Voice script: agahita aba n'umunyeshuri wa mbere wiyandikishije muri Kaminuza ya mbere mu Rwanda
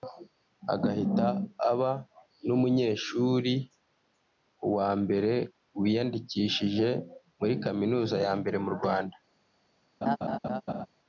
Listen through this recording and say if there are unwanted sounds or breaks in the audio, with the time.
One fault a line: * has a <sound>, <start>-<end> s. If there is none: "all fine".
* has a laugh, 10.0-10.9 s